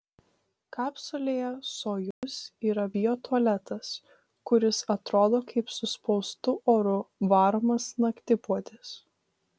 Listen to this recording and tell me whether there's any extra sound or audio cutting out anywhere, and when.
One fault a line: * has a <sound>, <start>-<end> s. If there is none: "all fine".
* has a dropout, 2.1-2.2 s